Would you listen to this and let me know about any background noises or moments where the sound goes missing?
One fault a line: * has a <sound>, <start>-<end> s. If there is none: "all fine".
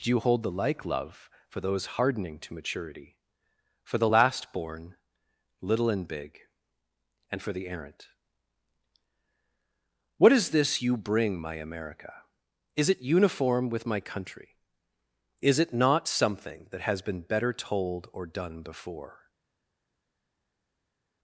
all fine